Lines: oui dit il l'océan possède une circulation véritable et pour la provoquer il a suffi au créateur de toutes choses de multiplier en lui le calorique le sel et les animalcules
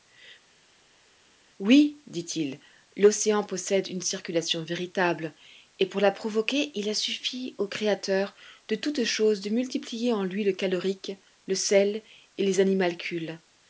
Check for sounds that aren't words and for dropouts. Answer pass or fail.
pass